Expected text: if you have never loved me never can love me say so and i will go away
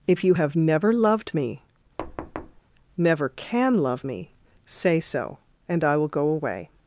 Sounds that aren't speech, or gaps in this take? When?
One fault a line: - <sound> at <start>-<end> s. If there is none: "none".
- thud at 2.0-2.6 s